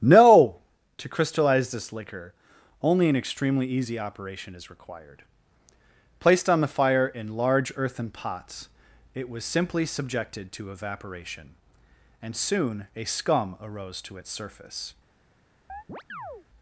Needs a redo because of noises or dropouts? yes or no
yes